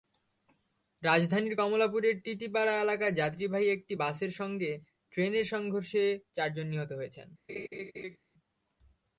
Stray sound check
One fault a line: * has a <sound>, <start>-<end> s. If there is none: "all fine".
* has a laugh, 7.5-8.2 s